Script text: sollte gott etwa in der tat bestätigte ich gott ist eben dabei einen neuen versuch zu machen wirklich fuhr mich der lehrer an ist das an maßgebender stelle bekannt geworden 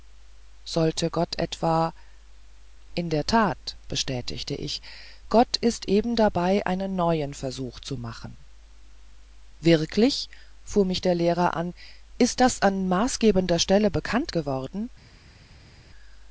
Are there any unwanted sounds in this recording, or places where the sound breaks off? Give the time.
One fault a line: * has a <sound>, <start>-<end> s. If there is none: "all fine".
all fine